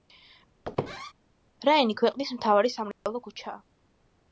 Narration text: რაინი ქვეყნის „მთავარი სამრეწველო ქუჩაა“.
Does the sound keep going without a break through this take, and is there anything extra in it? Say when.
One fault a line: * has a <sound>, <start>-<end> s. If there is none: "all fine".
* has a squeak, 0.6-1.1 s
* has a dropout, 2.9-3.1 s